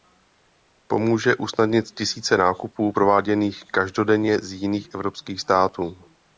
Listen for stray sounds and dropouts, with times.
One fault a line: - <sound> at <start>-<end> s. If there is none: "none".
none